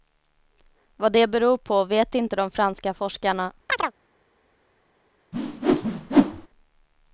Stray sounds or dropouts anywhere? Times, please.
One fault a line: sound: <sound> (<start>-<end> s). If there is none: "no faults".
sound: chirp (3.7-3.9 s)
sound: whoosh (5.3-6.5 s)